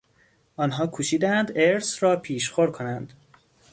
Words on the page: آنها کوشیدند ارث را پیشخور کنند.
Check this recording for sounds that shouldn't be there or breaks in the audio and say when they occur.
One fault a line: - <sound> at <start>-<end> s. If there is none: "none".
none